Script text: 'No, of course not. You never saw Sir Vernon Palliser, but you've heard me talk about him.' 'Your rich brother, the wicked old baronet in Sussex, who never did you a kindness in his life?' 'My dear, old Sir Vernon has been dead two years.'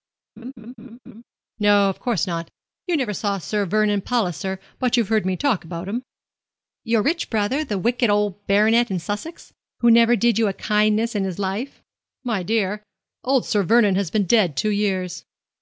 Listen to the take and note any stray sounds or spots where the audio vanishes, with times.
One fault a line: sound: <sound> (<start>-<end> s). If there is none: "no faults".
sound: laugh (0.4-1.2 s)